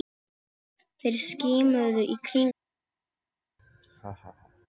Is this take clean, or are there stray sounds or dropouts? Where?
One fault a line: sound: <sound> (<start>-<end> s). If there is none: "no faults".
sound: laugh (3.6-4.7 s)